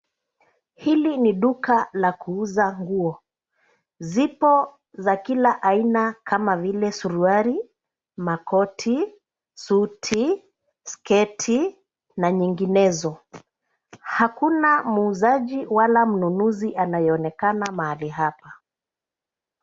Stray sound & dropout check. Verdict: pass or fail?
pass